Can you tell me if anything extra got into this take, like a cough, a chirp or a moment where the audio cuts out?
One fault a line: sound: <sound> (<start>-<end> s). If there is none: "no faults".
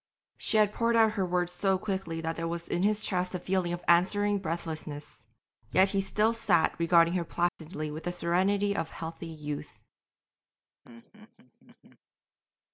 sound: dropout (7.5-7.6 s)
sound: laugh (10.8-12.0 s)